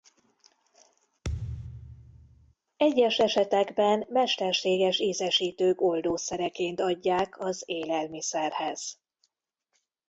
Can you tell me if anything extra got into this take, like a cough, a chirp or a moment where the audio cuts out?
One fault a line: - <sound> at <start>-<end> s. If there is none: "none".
- thud at 1.2-2.5 s